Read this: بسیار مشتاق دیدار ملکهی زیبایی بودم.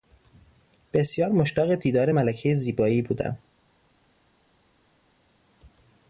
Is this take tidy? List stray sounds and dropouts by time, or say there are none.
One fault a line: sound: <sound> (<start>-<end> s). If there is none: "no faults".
no faults